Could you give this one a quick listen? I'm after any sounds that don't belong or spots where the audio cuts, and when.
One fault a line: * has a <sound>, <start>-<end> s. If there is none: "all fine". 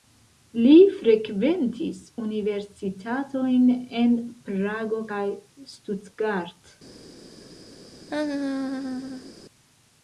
* has a laugh, 8.1-9.3 s